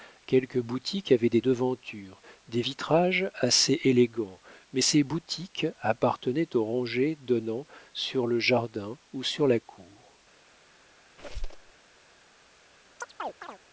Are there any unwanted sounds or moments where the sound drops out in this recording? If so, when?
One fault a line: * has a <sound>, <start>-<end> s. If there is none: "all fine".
* has a squeak, 11.2-11.7 s
* has a chirp, 13.0-13.6 s